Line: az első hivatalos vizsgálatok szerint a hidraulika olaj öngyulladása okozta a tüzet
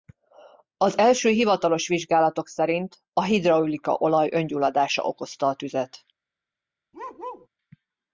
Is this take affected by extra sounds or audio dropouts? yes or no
yes